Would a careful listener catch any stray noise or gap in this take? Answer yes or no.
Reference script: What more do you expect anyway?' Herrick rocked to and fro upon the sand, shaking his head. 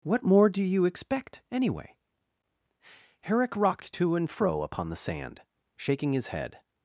no